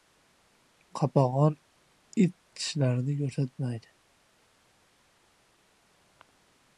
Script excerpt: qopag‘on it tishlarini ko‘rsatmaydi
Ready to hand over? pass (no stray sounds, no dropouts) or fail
pass